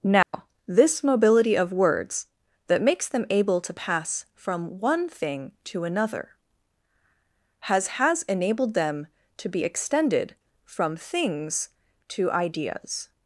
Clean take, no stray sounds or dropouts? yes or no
no